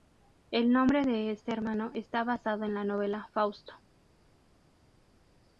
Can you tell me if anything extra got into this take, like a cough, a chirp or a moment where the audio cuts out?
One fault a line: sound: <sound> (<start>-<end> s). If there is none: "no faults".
no faults